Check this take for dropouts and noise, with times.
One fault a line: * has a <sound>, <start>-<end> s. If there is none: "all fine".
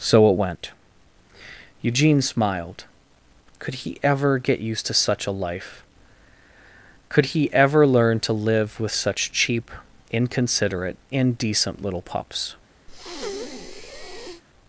* has a breath, 12.9-14.4 s